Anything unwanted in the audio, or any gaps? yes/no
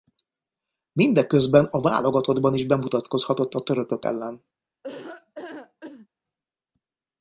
yes